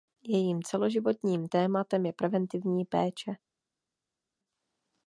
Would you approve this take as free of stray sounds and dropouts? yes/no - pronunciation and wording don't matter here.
yes